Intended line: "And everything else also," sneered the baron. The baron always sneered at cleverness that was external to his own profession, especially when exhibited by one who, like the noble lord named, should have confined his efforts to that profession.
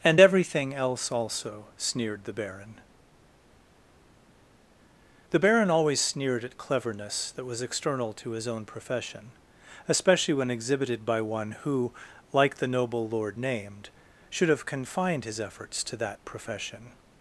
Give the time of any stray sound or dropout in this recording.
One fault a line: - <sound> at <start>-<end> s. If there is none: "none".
none